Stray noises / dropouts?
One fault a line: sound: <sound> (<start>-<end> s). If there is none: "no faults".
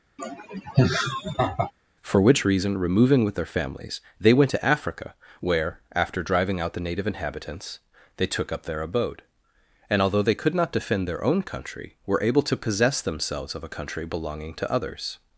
sound: laugh (0.2-1.7 s)